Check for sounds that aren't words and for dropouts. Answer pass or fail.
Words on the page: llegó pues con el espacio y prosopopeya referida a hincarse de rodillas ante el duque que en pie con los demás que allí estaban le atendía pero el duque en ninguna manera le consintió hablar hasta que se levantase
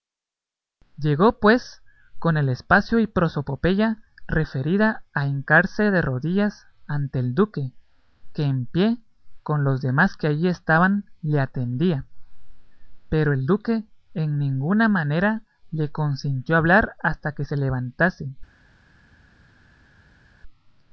pass